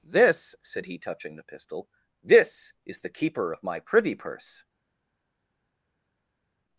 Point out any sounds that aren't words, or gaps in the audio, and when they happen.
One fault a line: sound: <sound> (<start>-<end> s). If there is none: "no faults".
no faults